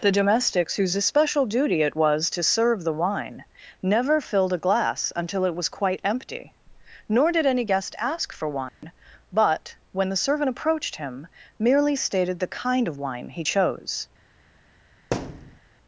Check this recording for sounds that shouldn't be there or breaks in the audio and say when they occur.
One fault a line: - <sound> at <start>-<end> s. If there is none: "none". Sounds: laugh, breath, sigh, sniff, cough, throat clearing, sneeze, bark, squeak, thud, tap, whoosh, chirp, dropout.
- dropout at 8.7-8.8 s
- thud at 15.1-15.6 s